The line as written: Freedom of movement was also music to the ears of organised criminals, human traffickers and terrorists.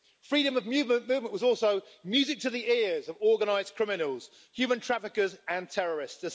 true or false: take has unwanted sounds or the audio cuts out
false